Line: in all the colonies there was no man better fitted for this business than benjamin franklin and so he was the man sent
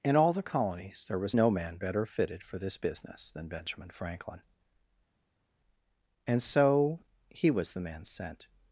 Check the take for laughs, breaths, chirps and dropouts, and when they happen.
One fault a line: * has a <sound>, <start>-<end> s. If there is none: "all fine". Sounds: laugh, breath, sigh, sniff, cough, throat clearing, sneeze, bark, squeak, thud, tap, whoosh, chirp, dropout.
all fine